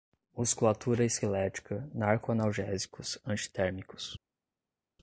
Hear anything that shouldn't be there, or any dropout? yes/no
no